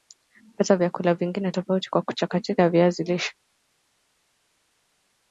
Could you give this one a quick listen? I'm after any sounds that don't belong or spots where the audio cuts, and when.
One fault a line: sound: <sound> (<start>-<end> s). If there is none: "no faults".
no faults